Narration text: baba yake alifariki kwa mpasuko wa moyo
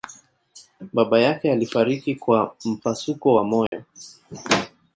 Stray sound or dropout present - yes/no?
yes